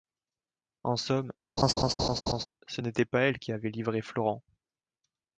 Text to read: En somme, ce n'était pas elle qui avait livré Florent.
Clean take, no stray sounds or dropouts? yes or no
no